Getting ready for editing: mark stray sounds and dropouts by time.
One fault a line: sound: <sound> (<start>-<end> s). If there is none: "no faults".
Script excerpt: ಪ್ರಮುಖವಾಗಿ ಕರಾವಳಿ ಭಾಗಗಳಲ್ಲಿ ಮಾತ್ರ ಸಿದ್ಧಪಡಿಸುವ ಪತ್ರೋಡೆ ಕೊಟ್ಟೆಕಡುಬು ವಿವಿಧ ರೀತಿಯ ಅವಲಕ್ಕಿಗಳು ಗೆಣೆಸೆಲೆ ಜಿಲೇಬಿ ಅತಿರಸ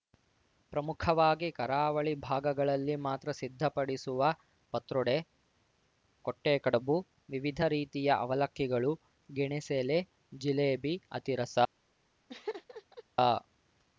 sound: laugh (12.3-13.0 s)